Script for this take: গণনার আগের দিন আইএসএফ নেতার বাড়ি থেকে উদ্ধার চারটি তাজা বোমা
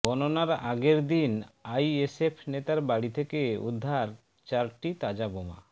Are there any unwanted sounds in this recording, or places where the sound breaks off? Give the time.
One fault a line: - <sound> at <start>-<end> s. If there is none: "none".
none